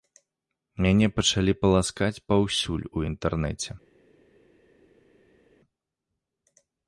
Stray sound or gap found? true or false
false